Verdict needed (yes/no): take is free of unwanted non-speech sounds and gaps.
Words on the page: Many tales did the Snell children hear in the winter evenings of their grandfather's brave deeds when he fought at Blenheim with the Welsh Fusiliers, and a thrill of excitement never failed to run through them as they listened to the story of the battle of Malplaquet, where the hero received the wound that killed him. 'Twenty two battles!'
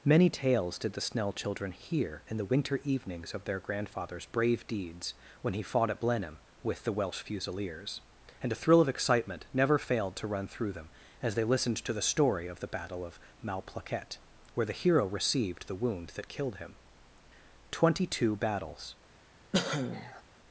no